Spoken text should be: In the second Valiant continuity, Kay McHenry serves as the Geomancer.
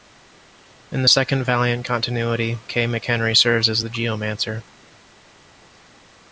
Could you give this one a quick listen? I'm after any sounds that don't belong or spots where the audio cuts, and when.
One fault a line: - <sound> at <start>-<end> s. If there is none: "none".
none